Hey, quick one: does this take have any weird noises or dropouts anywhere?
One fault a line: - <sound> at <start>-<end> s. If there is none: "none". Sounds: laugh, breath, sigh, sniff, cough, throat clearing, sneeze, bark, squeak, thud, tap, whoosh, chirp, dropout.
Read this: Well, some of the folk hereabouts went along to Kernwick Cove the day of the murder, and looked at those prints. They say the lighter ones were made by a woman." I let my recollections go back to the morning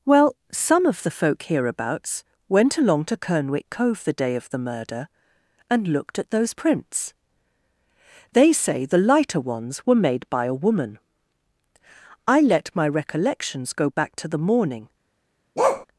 - bark at 15.6-15.9 s